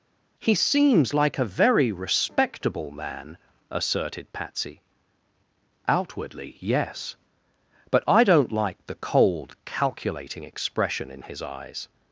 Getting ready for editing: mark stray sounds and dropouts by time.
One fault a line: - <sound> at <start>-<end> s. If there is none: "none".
none